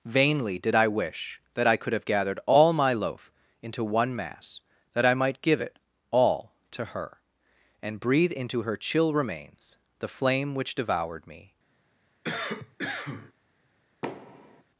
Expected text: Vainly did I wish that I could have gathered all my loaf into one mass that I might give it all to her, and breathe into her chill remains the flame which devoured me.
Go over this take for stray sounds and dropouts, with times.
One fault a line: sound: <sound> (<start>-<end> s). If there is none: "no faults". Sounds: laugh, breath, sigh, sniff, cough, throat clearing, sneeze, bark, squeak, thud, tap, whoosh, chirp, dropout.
sound: cough (12.2-13.3 s)
sound: thud (14.0-14.6 s)